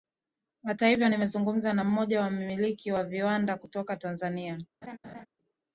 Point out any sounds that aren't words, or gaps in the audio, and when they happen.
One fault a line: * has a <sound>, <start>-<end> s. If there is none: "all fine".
* has a laugh, 4.8-5.3 s